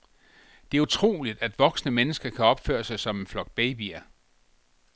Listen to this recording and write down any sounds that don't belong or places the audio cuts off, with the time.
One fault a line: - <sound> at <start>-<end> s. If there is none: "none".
none